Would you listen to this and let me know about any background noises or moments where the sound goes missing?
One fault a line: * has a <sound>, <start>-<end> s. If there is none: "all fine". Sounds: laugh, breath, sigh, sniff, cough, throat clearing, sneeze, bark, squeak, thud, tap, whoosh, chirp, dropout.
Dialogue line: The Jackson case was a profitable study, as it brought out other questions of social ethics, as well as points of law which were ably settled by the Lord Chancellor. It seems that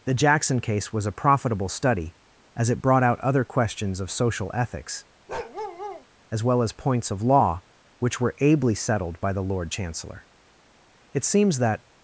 * has a bark, 5.3-6.1 s